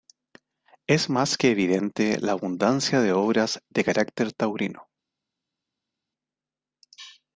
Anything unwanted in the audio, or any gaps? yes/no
no